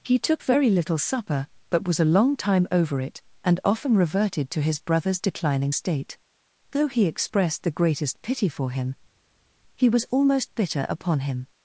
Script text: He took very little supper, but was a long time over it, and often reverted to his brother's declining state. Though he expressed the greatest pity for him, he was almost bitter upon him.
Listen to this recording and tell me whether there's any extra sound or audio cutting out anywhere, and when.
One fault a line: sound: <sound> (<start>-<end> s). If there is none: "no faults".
no faults